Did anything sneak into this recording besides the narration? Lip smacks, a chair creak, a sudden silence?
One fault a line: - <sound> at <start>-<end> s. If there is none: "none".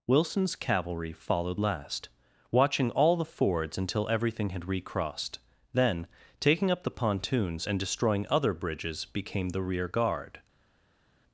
none